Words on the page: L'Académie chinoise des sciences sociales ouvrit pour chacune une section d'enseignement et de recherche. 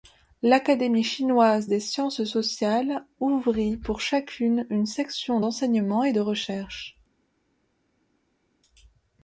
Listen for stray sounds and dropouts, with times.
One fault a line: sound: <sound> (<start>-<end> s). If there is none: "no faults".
no faults